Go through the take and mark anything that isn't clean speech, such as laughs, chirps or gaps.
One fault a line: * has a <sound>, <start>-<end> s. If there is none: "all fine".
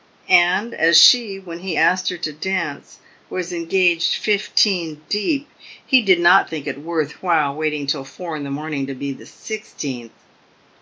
all fine